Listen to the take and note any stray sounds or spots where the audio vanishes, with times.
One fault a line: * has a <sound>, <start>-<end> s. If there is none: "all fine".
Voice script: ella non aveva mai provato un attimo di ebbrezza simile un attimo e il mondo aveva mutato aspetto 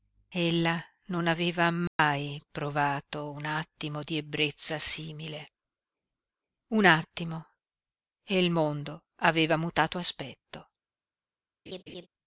* has a dropout, 1.9-2.0 s
* has a laugh, 11.7-12.1 s